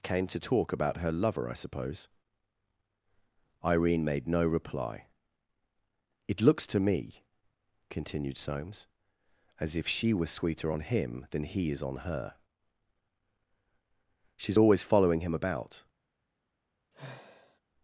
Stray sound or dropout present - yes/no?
yes